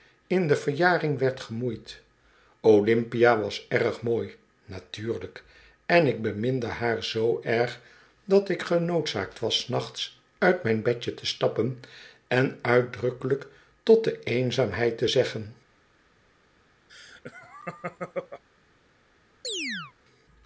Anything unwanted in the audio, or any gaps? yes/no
yes